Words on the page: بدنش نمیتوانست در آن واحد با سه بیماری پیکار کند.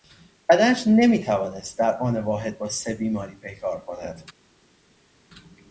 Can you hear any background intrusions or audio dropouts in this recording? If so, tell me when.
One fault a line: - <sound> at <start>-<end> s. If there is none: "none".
none